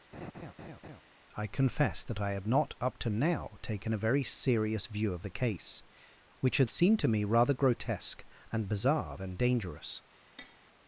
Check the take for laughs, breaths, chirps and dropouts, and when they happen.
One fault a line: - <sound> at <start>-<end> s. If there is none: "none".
- laugh at 0.1-1.0 s
- tap at 10.4-10.6 s